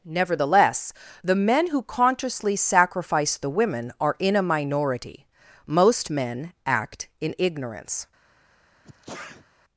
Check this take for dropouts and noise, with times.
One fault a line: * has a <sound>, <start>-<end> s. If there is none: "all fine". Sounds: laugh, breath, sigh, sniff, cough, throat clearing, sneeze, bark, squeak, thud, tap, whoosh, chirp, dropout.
* has a sneeze, 8.8-9.5 s